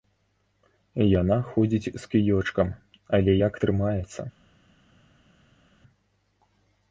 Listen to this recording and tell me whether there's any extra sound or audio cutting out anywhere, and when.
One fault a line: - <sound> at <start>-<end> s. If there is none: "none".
none